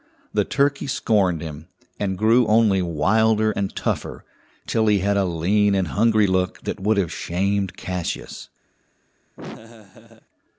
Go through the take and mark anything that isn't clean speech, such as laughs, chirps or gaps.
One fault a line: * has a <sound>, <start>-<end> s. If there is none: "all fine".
* has a laugh, 9.4-10.3 s